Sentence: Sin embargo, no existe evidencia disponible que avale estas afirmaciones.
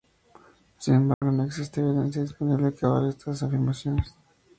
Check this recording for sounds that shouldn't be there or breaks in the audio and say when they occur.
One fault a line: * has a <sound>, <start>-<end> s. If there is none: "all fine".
* has a dropout, 1.1-1.2 s